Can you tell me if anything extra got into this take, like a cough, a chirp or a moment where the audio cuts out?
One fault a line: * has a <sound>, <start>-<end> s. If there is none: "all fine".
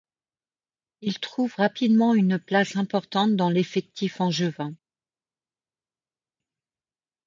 all fine